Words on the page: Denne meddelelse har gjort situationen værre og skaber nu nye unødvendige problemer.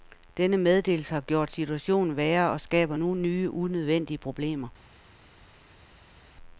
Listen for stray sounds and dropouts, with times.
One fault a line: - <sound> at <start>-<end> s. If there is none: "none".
none